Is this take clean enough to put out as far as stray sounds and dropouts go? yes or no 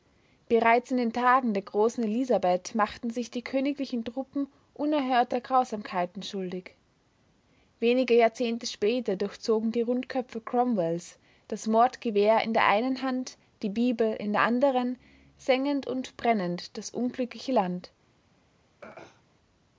no